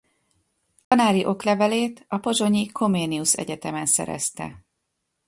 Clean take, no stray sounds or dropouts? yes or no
no